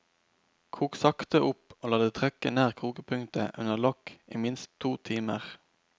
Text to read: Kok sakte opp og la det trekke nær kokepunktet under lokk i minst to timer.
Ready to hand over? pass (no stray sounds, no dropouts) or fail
pass